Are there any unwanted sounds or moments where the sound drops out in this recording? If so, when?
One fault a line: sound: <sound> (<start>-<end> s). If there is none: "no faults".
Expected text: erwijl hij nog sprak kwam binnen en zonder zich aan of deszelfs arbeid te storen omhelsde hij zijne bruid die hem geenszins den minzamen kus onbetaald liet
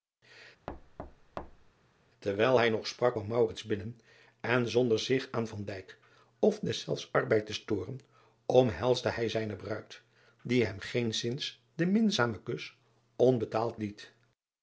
sound: thud (0.7-1.7 s)